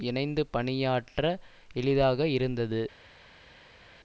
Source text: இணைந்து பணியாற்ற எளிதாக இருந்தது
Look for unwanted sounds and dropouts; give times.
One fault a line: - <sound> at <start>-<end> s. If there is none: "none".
none